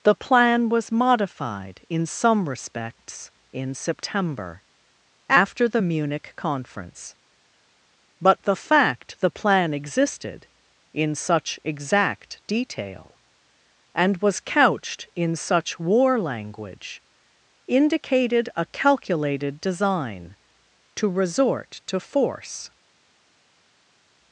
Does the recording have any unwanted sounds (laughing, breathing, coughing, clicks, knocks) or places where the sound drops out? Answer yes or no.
no